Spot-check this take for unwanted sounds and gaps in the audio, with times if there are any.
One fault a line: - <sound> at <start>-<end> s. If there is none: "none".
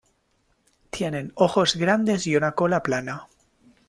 none